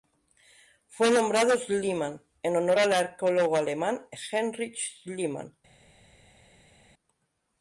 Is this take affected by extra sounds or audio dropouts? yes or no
no